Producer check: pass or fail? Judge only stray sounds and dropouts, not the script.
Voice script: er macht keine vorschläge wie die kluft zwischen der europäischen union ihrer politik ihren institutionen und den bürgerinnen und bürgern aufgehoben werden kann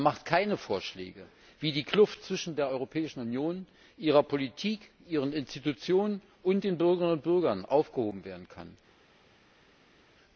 pass